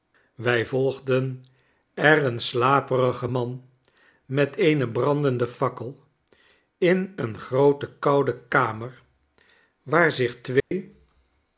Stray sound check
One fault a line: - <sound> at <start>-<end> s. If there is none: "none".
- dropout at 10.6-10.7 s